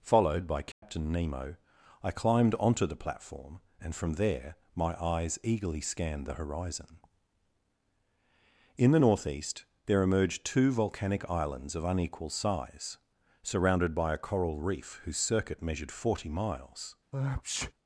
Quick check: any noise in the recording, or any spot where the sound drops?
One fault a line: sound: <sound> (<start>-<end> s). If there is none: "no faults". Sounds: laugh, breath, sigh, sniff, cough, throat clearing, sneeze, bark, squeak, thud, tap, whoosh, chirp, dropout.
sound: dropout (0.7-0.8 s)
sound: sneeze (17.1-17.7 s)